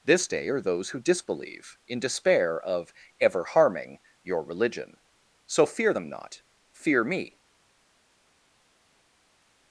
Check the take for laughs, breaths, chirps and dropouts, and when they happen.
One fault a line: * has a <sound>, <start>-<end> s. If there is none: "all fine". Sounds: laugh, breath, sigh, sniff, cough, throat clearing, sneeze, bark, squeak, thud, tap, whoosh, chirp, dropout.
all fine